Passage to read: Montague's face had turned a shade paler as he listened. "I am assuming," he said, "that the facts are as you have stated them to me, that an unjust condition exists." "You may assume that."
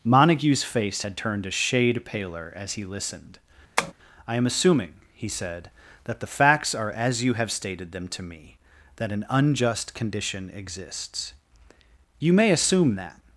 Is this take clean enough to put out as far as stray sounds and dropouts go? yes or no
no